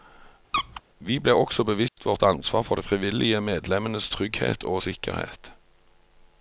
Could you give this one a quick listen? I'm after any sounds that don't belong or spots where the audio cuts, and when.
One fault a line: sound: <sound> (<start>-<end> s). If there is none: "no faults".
sound: squeak (0.5-0.8 s)
sound: dropout (1.9-2.0 s)